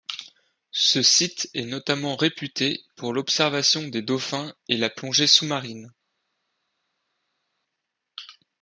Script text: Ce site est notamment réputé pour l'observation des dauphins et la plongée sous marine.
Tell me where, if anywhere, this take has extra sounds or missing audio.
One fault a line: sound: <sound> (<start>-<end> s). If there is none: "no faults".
no faults